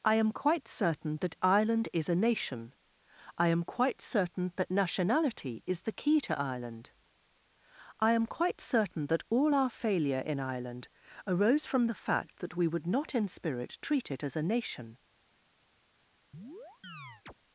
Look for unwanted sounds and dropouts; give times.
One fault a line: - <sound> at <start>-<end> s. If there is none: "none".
- chirp at 16.3-17.3 s